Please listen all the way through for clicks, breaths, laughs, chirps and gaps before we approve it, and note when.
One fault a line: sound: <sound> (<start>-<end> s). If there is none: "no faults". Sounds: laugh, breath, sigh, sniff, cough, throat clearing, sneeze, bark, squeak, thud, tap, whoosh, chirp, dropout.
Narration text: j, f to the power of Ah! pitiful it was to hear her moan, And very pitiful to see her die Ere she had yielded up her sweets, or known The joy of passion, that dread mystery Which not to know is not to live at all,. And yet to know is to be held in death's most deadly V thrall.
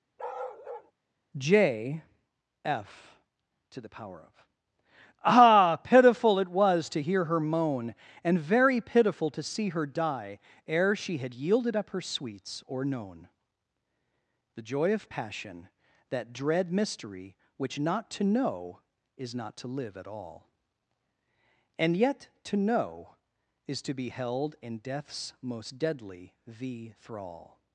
sound: bark (0.2-0.9 s)